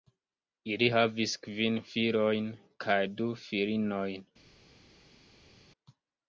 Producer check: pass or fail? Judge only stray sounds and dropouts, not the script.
pass